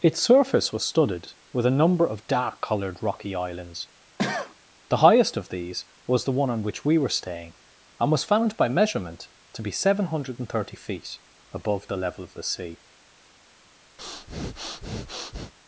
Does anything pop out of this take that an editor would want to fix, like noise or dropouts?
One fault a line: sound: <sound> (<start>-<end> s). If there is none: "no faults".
sound: cough (4.2-4.6 s)
sound: breath (14.0-15.5 s)